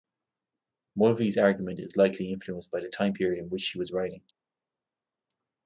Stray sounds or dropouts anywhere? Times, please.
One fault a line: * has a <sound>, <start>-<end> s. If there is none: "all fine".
all fine